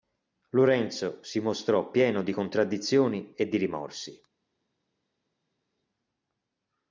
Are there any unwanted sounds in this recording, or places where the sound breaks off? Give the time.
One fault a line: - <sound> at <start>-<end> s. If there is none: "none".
none